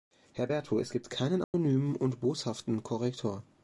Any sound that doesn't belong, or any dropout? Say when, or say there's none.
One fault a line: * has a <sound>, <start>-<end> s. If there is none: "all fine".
* has a dropout, 1.4-1.5 s